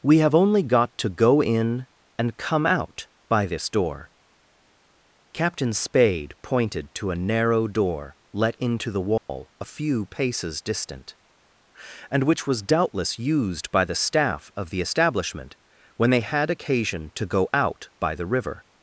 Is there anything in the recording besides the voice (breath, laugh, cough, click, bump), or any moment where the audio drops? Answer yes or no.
yes